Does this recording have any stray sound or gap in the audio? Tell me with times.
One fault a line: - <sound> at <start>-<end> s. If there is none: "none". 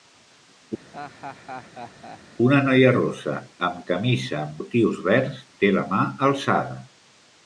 - laugh at 0.9-2.2 s